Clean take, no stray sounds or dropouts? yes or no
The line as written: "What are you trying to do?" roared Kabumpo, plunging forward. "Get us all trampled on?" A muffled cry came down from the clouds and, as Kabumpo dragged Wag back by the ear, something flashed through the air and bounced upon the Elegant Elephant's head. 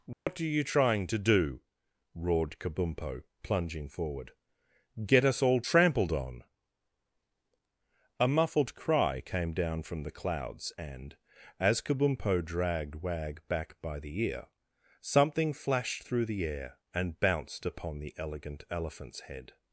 no